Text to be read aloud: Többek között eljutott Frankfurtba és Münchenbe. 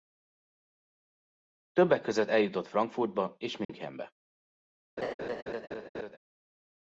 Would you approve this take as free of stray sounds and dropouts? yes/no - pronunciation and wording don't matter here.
no